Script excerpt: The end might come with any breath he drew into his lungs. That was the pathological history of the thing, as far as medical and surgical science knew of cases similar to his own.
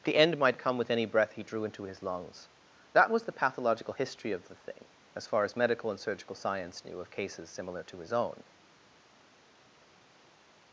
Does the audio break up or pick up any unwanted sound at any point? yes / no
no